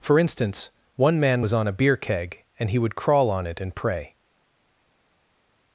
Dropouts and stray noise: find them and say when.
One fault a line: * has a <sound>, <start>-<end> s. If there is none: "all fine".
all fine